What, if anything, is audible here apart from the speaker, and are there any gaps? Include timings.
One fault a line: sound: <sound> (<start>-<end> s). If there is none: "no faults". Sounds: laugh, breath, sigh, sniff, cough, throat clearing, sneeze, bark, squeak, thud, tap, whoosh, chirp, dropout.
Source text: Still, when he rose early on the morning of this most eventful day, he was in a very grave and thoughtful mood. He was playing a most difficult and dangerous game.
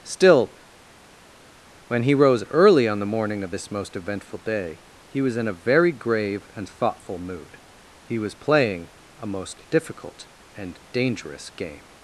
no faults